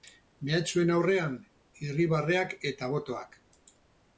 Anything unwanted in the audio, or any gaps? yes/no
no